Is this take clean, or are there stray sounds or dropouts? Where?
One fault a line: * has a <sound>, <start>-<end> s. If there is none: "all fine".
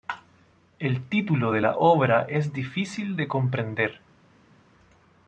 all fine